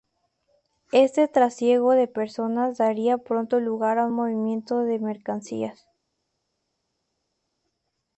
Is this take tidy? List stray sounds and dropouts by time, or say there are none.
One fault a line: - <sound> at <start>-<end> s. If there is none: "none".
none